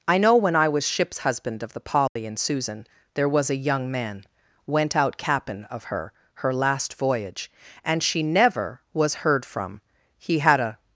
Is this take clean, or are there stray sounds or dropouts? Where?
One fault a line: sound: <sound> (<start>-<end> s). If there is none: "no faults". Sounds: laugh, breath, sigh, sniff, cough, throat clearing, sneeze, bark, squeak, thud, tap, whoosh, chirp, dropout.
sound: dropout (2.1-2.2 s)